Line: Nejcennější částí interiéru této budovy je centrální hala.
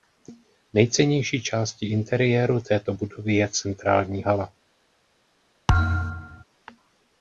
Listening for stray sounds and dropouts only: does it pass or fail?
fail